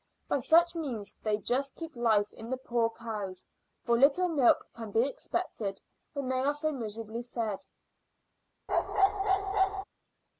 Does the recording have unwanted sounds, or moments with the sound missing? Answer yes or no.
yes